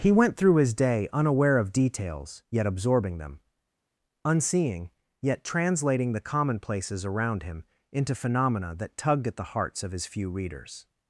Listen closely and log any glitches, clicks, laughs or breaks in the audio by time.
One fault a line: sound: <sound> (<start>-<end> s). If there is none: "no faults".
no faults